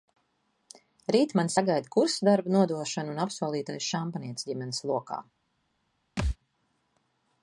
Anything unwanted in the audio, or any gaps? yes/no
yes